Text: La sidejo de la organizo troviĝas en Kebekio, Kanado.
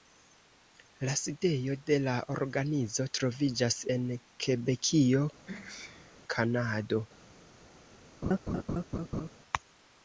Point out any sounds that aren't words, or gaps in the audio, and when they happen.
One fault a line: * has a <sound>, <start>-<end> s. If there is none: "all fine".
* has a sneeze, 5.5-6.2 s
* has a laugh, 8.2-9.3 s